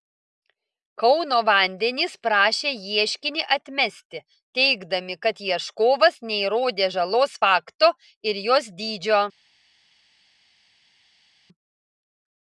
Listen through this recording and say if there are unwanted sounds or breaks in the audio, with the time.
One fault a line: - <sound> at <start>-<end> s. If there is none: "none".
none